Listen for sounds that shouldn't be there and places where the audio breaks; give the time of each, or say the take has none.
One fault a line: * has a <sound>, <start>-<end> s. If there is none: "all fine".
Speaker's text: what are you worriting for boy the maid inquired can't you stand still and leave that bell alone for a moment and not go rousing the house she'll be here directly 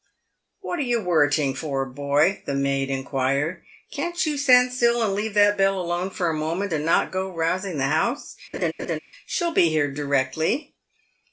* has a laugh, 8.5-9.0 s